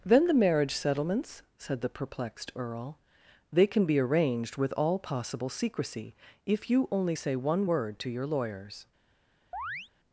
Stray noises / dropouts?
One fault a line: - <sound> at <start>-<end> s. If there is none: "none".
- chirp at 9.5-9.9 s